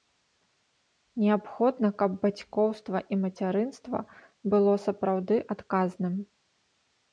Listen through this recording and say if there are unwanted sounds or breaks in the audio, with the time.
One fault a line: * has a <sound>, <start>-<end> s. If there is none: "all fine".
all fine